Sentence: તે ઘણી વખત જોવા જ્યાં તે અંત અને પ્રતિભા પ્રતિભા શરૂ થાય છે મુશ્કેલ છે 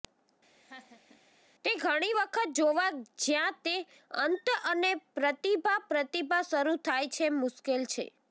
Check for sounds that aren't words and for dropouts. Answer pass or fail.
fail